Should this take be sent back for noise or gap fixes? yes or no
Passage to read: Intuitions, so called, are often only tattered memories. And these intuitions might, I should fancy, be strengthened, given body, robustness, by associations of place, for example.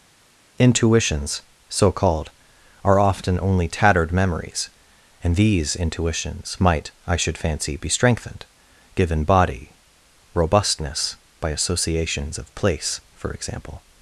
no